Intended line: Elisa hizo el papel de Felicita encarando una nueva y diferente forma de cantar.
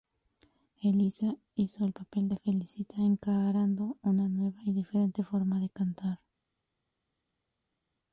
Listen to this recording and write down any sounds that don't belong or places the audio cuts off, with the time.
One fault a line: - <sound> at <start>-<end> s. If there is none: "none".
none